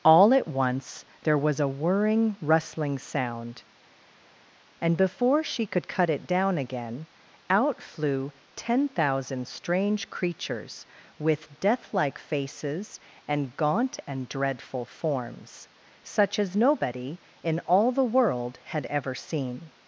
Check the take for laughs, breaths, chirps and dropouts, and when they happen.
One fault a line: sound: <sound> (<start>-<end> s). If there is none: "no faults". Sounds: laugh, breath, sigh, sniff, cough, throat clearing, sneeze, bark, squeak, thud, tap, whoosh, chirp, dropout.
no faults